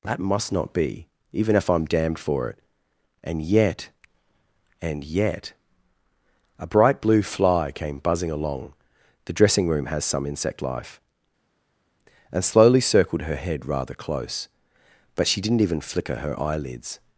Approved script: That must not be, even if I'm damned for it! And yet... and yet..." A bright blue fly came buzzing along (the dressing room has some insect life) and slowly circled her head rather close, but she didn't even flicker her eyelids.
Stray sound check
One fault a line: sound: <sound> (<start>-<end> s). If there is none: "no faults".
no faults